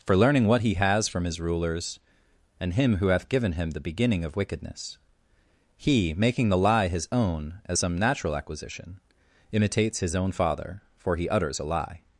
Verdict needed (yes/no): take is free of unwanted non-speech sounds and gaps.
yes